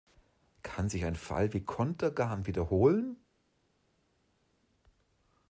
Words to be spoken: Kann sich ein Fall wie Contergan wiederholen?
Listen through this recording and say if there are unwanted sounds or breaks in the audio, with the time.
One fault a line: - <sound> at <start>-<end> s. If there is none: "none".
none